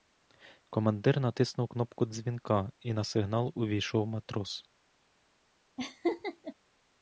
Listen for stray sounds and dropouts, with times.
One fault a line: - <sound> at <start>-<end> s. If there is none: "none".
- laugh at 5.8-6.5 s